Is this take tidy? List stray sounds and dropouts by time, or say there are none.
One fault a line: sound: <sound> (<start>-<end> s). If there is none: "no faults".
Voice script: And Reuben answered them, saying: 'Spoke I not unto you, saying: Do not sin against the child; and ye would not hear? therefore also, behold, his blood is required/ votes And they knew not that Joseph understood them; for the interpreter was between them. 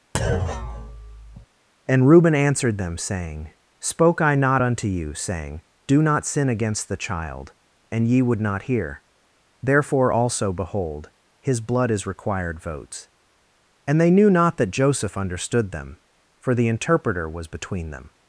sound: thud (0.1-1.5 s)